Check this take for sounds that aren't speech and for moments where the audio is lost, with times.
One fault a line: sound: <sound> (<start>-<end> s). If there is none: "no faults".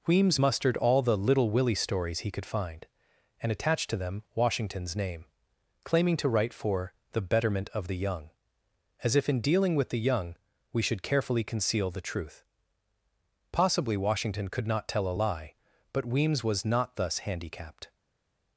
no faults